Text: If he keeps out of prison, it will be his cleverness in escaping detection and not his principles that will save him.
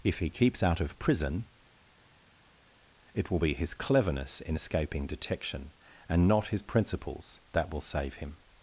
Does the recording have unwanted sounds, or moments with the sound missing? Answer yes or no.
no